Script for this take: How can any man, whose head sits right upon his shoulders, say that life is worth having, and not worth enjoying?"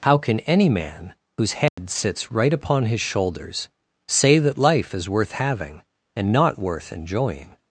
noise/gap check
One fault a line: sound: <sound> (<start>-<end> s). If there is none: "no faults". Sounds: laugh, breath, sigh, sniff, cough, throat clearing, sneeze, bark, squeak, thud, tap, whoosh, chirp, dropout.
sound: dropout (1.7-1.8 s)